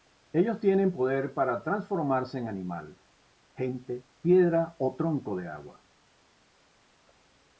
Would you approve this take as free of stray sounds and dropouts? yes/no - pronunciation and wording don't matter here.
yes